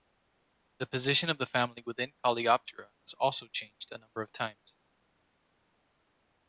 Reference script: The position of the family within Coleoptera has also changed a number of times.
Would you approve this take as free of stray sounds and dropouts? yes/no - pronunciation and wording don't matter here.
yes